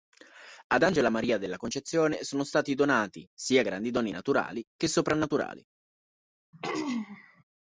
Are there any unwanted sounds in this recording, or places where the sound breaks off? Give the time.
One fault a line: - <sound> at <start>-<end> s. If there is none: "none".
- throat clearing at 6.5-7.4 s